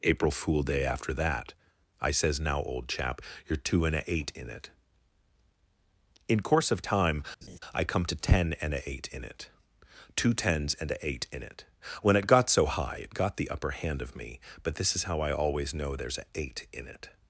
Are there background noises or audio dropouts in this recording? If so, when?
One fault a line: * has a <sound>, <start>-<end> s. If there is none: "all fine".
* has a laugh, 7.4-7.6 s